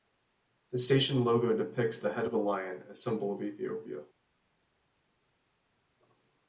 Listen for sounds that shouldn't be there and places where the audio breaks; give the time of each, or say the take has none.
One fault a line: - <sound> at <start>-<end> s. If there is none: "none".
none